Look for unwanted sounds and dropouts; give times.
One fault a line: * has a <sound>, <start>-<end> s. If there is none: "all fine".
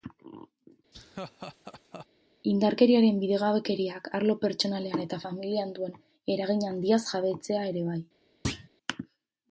* has a laugh, 0.9-2.1 s
* has a thud, 8.4-8.7 s